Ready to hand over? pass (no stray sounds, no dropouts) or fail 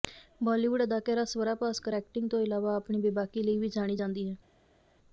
pass